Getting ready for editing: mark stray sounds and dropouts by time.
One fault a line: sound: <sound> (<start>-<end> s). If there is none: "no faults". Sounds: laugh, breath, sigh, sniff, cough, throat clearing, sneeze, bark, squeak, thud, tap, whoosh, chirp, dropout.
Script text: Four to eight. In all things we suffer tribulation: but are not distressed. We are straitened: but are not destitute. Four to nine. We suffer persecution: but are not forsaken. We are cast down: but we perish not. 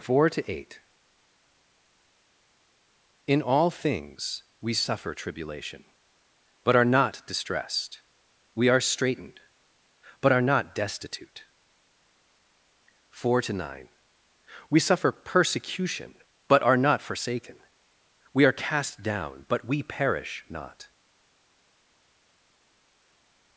no faults